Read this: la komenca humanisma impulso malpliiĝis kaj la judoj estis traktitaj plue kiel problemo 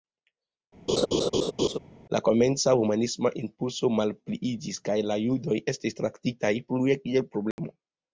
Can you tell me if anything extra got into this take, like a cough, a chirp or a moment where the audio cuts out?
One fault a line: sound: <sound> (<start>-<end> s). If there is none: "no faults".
sound: laugh (0.9-1.8 s)
sound: dropout (7.5-7.6 s)